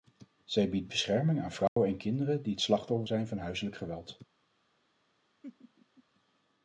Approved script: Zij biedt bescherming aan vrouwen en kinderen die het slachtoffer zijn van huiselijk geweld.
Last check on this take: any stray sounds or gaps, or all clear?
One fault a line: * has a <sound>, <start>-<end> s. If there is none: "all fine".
* has a dropout, 1.7-1.8 s
* has a laugh, 5.4-6.0 s